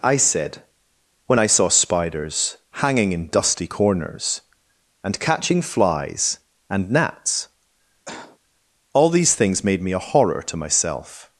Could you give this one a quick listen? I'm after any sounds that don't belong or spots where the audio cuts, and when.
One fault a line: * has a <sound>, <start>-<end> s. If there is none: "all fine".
* has a cough, 8.1-8.4 s